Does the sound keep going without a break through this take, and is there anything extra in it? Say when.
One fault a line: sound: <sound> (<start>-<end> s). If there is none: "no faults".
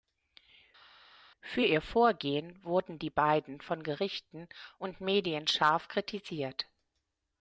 no faults